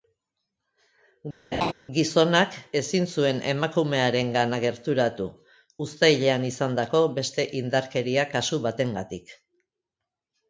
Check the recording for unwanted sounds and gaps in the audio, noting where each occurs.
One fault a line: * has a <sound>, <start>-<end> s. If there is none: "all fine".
* has a laugh, 1.5-1.7 s